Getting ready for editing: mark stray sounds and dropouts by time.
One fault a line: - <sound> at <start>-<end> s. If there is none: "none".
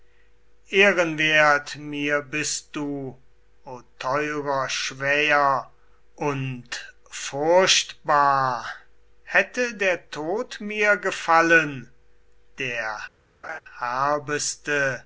- laugh at 13.4-13.6 s